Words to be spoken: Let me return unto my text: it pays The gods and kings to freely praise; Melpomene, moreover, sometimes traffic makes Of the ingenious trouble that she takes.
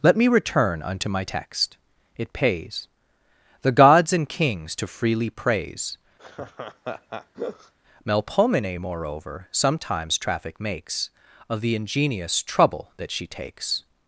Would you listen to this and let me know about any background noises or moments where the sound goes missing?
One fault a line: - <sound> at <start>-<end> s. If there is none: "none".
- laugh at 6.2-7.7 s